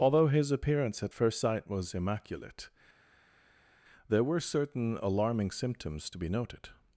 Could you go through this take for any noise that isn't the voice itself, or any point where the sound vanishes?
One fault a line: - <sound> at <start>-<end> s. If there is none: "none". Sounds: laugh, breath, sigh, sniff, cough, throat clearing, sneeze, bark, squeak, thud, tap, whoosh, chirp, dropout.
none